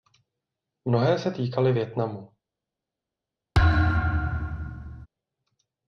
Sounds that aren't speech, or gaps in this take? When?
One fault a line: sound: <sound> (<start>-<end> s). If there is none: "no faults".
sound: thud (3.5-5.1 s)